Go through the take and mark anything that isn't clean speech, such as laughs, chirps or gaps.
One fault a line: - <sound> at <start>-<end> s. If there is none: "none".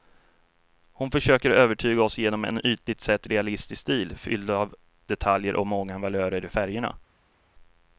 none